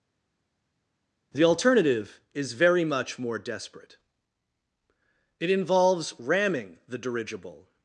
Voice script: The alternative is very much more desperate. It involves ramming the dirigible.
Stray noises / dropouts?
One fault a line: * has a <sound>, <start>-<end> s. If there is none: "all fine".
all fine